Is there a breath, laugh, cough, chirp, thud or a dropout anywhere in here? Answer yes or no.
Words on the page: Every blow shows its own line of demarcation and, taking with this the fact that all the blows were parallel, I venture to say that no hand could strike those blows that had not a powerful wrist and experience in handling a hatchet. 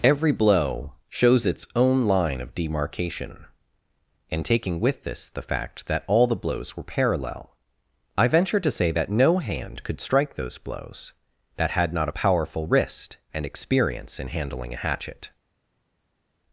no